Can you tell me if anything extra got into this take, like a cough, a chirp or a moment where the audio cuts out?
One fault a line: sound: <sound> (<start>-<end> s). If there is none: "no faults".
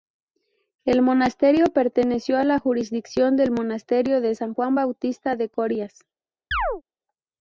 sound: chirp (6.5-6.8 s)